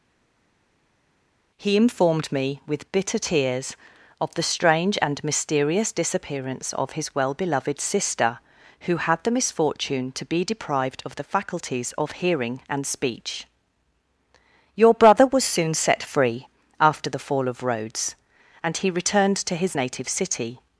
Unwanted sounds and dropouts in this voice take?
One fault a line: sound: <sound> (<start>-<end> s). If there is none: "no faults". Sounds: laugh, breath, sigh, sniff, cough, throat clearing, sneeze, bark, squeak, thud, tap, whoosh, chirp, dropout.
no faults